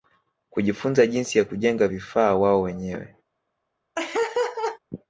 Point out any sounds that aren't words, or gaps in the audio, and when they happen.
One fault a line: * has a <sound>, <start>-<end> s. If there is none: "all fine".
* has a laugh, 4.0-4.8 s